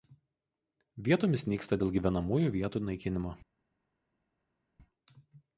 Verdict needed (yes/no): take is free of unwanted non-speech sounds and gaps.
yes